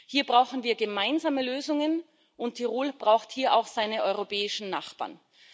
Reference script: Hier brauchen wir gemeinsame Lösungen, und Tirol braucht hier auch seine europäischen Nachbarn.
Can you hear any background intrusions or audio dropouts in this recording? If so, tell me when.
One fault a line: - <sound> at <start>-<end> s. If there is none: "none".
none